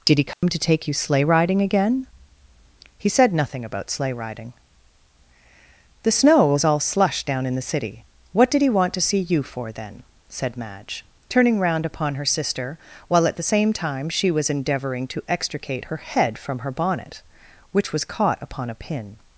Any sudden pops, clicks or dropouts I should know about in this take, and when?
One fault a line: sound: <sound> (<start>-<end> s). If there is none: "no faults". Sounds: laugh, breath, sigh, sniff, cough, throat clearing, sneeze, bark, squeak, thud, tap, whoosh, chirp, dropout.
sound: dropout (0.3-0.4 s)